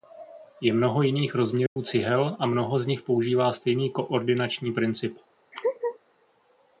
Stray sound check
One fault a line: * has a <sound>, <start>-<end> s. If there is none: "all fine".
* has a dropout, 1.7-1.8 s
* has a laugh, 5.5-6.0 s